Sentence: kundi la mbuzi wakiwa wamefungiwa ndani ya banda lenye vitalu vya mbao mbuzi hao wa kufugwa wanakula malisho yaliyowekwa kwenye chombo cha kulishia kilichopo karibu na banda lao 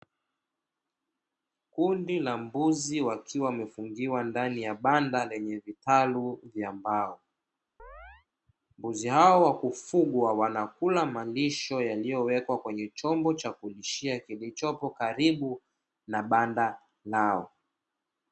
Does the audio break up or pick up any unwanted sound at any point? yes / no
yes